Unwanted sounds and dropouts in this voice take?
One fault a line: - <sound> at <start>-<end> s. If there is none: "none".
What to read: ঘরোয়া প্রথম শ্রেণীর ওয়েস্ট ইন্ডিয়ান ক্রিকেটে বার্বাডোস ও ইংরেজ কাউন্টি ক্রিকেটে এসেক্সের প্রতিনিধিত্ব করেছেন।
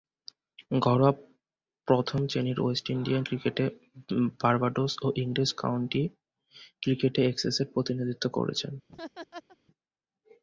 - laugh at 8.9-9.6 s